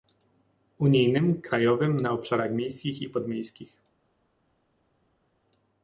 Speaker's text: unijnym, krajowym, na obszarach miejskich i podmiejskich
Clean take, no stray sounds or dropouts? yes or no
yes